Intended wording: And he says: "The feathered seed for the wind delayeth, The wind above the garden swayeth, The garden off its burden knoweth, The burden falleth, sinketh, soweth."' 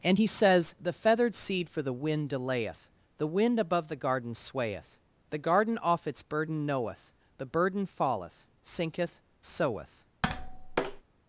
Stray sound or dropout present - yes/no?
yes